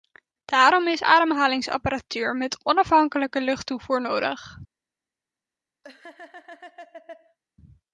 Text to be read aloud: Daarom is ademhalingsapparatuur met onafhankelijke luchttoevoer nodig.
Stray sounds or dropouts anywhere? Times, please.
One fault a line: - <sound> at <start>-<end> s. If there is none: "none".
- laugh at 5.8-7.4 s